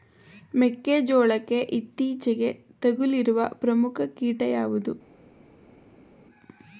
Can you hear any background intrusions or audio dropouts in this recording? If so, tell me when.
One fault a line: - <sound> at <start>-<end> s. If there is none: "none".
none